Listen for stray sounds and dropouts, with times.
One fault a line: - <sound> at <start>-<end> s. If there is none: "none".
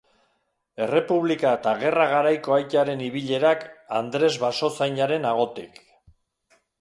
none